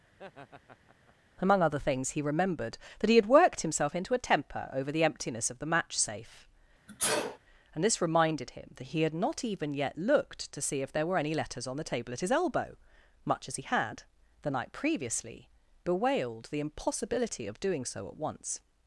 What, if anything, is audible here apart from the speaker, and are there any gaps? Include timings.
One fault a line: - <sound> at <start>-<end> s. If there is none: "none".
- laugh at 0.1-1.2 s
- sneeze at 6.9-7.4 s